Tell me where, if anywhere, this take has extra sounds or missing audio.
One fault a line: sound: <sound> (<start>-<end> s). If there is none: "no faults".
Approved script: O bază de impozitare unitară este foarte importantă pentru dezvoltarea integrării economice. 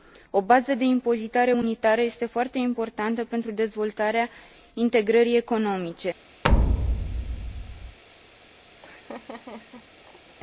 sound: thud (6.4-8.0 s)
sound: laugh (8.8-10.4 s)